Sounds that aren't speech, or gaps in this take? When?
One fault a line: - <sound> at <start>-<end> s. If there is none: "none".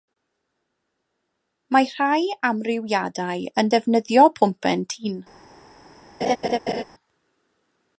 - laugh at 6.2-6.8 s